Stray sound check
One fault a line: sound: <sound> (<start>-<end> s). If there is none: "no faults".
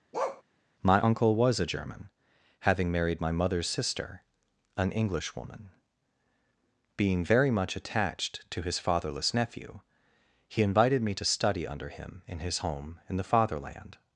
sound: bark (0.1-0.4 s)